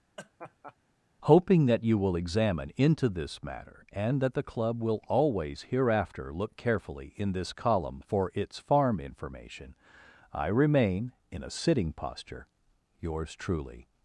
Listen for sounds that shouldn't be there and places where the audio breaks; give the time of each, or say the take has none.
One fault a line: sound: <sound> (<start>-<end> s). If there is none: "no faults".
sound: laugh (0.2-0.8 s)